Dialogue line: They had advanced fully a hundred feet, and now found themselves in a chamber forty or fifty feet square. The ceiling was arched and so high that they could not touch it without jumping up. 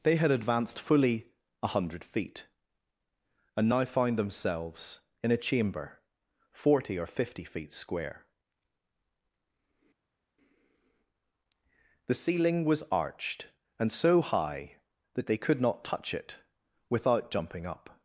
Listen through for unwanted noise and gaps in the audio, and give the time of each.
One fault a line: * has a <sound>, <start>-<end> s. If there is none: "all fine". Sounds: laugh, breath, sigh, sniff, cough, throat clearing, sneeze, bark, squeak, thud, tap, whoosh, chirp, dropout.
all fine